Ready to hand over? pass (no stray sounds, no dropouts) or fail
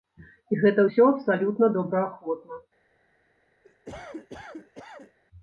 fail